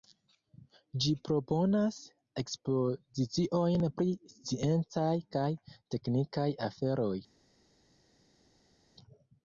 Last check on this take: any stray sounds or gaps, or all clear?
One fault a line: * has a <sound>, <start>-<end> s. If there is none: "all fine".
all fine